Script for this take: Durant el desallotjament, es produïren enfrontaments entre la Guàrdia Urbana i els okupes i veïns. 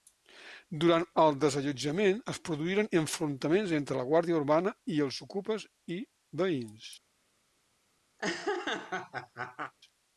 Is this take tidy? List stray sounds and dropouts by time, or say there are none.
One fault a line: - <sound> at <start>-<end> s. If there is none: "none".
- laugh at 8.2-9.7 s